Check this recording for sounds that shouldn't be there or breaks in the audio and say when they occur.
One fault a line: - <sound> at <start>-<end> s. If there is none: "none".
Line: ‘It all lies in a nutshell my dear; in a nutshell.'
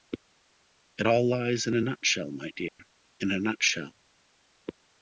- dropout at 2.7-2.8 s